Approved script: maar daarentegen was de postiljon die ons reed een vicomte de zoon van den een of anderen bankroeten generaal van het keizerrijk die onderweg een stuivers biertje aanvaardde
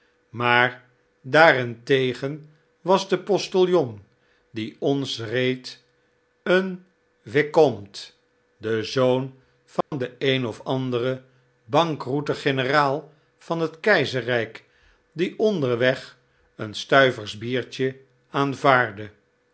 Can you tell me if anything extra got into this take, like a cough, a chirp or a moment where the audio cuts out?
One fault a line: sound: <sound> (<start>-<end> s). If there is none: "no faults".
sound: dropout (9.8-9.9 s)